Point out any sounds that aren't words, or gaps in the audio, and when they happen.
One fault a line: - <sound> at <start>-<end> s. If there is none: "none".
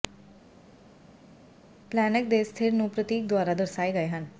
none